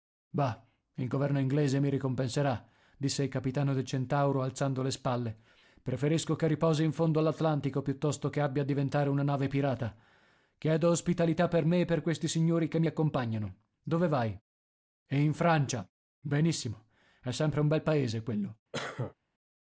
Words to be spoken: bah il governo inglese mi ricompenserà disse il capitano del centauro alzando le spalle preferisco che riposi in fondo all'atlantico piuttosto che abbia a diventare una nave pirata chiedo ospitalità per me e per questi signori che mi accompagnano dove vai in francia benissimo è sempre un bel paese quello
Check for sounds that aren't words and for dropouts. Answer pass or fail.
fail